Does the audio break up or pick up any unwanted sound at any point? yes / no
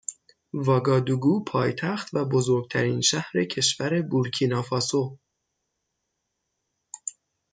no